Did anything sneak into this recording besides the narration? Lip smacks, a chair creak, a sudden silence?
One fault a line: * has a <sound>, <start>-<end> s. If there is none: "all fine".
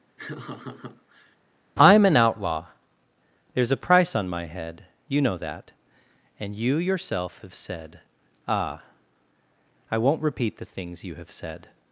* has a laugh, 0.2-1.4 s